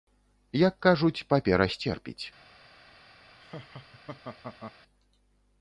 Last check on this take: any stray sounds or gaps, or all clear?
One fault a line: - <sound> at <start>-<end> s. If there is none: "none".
- laugh at 3.4-4.8 s